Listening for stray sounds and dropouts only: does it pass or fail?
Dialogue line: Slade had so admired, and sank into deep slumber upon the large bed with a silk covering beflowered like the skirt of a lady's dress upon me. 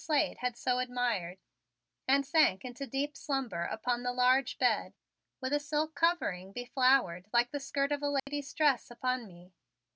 fail